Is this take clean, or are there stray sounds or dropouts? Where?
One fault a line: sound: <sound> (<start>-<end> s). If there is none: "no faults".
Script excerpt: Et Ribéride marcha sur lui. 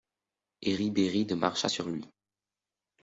no faults